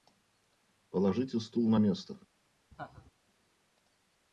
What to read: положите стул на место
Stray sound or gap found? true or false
true